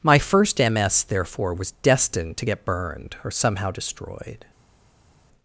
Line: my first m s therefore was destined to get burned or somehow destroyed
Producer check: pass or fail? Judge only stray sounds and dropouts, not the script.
pass